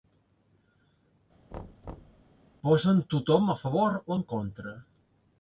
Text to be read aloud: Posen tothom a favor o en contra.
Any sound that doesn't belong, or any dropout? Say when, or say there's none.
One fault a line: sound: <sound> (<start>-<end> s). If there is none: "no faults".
sound: thud (1.5-2.3 s)